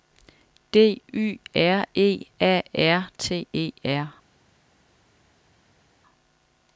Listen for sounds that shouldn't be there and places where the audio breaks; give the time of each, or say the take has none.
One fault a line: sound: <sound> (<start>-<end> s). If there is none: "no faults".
no faults